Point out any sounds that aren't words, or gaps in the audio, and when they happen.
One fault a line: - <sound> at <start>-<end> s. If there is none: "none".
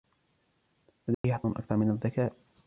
- dropout at 1.1-1.2 s